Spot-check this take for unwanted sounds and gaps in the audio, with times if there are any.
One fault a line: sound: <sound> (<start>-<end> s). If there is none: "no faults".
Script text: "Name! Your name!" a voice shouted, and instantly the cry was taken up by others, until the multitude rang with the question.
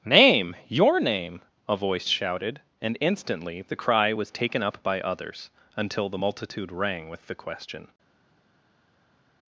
no faults